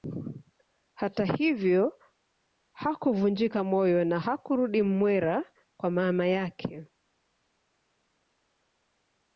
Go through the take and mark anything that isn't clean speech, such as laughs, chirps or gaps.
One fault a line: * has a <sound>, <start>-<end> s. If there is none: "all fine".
all fine